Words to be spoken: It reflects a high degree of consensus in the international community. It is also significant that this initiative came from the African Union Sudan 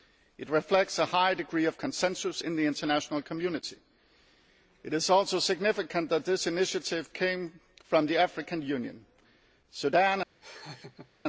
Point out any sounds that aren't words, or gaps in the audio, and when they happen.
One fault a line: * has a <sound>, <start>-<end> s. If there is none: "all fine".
* has a laugh, 10.4-11.1 s